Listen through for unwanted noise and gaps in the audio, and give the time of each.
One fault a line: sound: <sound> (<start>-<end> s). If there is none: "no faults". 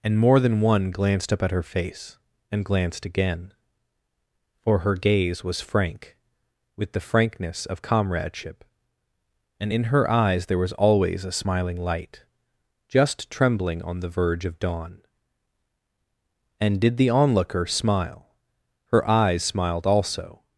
no faults